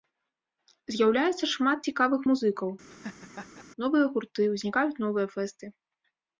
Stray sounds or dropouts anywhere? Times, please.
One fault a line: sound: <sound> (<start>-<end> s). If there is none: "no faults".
sound: laugh (2.9-3.6 s)